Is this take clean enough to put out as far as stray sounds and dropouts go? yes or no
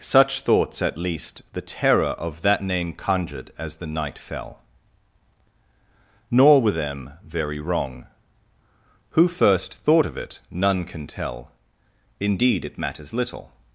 yes